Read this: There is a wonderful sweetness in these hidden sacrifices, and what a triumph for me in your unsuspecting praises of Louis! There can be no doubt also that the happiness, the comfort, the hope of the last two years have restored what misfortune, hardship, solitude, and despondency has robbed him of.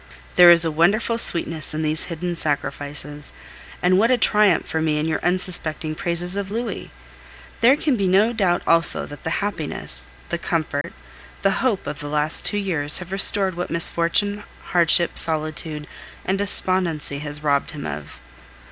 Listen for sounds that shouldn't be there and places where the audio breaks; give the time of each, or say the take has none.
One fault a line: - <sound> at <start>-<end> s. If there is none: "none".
- dropout at 10.8-10.8 s